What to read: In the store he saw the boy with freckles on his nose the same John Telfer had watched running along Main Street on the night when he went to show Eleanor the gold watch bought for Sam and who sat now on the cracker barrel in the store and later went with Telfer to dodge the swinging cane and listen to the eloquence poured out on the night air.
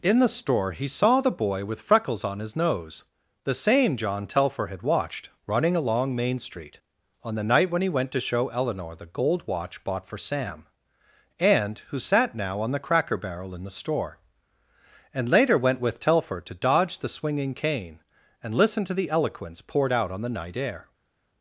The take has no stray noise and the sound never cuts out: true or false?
true